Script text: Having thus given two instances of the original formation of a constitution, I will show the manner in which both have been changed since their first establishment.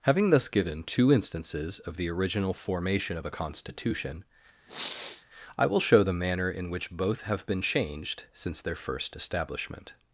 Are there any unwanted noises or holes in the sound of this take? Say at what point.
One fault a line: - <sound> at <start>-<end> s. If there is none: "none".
- sniff at 4.7-5.3 s